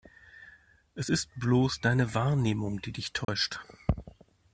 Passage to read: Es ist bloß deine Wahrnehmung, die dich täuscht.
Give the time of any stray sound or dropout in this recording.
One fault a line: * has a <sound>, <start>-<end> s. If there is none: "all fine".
* has a dropout, 3.2-3.3 s